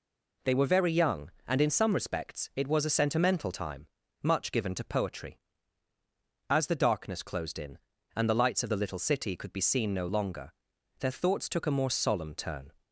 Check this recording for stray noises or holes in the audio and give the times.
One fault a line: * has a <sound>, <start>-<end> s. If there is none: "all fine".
all fine